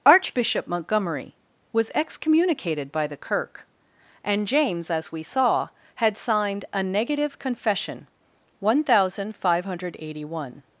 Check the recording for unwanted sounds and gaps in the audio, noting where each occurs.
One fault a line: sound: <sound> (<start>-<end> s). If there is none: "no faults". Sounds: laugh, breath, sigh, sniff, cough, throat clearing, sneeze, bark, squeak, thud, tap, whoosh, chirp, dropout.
no faults